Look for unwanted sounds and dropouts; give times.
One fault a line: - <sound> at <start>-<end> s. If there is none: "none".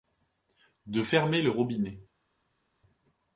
none